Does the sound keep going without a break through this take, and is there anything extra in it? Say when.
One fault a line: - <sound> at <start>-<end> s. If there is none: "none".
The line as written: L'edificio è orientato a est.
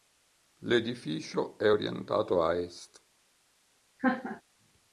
- laugh at 4.0-4.4 s